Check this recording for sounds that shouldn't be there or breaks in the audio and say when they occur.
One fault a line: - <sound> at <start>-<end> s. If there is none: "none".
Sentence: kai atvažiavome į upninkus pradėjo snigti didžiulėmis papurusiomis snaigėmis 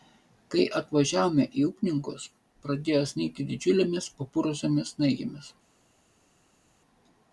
none